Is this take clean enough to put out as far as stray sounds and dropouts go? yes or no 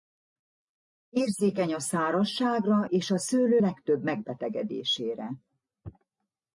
yes